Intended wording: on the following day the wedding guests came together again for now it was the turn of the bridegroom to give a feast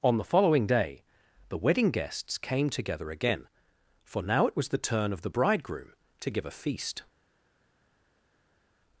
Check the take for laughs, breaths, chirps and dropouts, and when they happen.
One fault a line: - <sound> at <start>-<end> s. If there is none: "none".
none